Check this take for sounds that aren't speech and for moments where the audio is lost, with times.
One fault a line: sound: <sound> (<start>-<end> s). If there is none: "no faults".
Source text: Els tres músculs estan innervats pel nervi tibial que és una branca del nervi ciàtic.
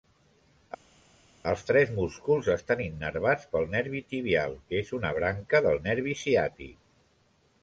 no faults